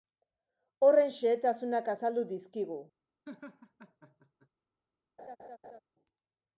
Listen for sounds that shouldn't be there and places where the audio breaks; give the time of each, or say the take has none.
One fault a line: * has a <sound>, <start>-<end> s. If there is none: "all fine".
* has a laugh, 3.2-4.5 s
* has a laugh, 5.2-5.8 s